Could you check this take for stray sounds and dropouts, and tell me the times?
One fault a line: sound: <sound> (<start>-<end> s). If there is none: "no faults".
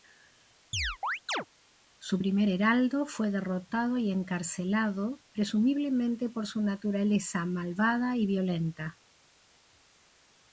sound: chirp (0.7-1.5 s)